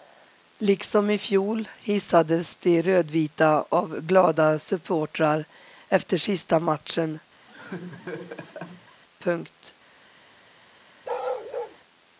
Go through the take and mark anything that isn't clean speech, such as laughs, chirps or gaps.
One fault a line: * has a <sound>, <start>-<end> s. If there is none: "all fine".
* has a laugh, 7.5-9.0 s
* has a bark, 11.0-11.8 s